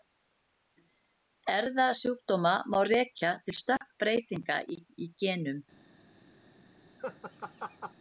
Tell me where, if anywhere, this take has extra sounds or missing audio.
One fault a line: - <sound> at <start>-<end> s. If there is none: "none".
- dropout at 3.8-3.8 s
- laugh at 7.0-7.9 s